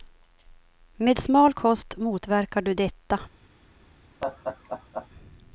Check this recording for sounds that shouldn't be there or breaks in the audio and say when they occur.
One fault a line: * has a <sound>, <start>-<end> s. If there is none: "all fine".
* has a laugh, 4.2-5.1 s